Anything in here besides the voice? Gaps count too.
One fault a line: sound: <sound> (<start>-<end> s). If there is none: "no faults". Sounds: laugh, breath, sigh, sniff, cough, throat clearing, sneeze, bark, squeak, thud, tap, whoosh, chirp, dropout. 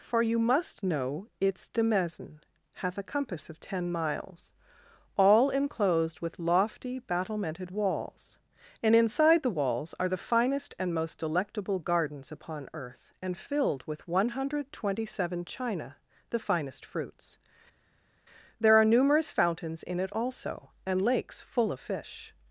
no faults